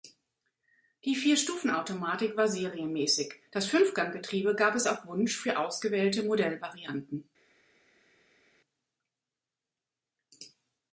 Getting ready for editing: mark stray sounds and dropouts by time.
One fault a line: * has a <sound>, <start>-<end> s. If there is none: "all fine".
all fine